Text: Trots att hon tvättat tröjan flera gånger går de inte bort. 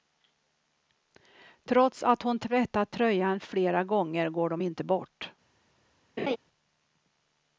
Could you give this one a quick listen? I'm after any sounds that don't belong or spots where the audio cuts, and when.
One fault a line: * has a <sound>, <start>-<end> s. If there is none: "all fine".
* has a laugh, 6.2-6.4 s